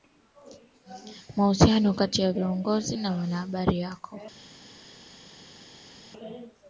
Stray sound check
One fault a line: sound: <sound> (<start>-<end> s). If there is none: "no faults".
no faults